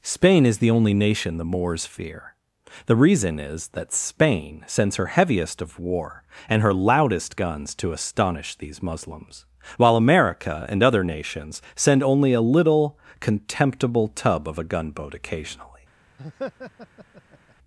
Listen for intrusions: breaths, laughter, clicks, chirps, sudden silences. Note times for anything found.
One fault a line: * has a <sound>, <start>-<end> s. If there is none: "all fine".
* has a laugh, 16.2-17.6 s